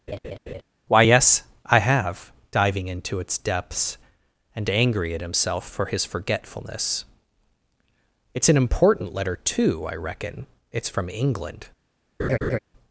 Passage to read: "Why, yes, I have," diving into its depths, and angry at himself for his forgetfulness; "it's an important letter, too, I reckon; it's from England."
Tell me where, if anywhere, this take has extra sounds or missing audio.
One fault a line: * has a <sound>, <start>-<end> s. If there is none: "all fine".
* has a laugh, 0.1-0.6 s
* has a laugh, 12.2-12.6 s